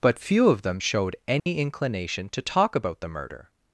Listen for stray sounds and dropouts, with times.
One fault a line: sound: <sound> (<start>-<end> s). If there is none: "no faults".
sound: dropout (1.4-1.5 s)